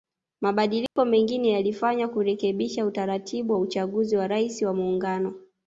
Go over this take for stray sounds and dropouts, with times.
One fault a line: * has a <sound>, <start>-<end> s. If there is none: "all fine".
* has a dropout, 0.9-1.0 s